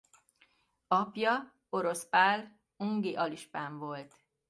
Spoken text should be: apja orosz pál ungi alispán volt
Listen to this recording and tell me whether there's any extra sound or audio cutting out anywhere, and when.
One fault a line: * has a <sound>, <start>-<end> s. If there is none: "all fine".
all fine